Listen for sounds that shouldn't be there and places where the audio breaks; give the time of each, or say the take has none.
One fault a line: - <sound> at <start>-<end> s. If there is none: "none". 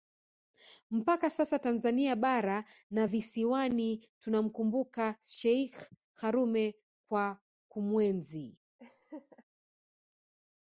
- laugh at 8.8-9.4 s